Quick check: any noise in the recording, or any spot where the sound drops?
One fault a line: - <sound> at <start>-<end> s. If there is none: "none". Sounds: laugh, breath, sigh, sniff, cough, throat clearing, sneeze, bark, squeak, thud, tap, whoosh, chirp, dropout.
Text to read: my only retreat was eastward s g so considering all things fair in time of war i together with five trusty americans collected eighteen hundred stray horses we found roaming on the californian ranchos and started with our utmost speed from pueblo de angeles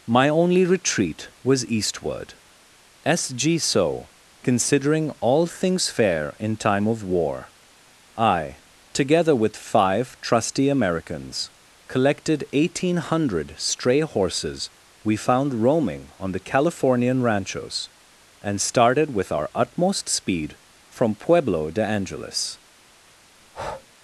- breath at 23.4-23.9 s